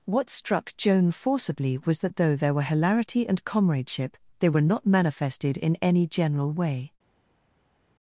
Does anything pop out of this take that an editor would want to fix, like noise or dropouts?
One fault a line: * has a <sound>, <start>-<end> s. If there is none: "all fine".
all fine